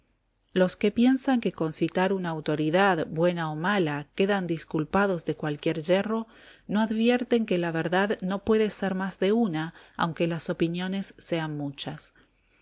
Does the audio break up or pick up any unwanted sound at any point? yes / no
no